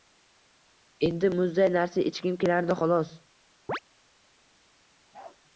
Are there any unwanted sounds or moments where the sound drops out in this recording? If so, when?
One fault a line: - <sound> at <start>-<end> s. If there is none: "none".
- chirp at 3.7-3.8 s
- bark at 5.1-5.4 s